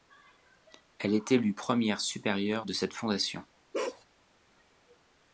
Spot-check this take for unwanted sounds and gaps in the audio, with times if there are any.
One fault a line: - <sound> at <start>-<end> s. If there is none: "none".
- bark at 3.7-4.0 s